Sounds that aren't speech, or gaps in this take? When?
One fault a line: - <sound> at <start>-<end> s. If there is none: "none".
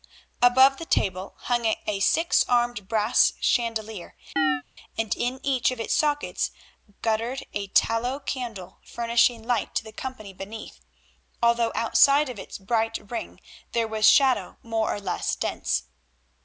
- chirp at 4.4-4.6 s